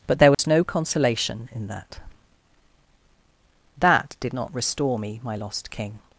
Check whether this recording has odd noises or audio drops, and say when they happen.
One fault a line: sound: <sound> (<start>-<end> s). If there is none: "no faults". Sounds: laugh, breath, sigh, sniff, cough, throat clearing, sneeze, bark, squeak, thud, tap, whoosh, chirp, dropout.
sound: dropout (0.3-0.4 s)